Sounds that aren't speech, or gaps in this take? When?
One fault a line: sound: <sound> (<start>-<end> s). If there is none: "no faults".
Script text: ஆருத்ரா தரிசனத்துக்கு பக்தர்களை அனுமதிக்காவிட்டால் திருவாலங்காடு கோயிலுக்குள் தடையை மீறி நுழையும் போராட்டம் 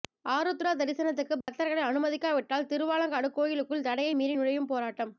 sound: dropout (1.4-1.5 s)